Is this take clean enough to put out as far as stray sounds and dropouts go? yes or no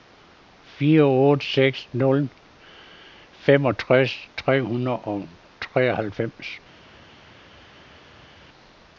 yes